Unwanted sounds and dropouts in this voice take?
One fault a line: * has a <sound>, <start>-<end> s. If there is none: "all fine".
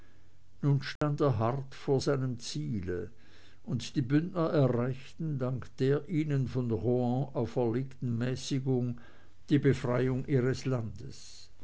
* has a dropout, 1.0-1.0 s